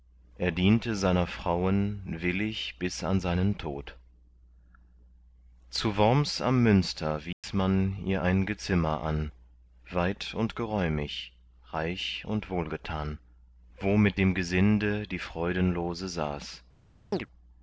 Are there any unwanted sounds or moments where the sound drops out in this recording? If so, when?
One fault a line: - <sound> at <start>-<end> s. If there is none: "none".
- dropout at 7.3-7.4 s
- chirp at 17.1-17.3 s